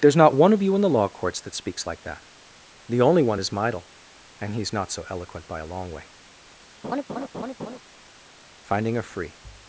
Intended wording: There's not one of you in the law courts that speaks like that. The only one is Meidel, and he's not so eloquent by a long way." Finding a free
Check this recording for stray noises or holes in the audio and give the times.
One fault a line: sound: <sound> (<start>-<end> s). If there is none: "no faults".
sound: laugh (6.8-7.8 s)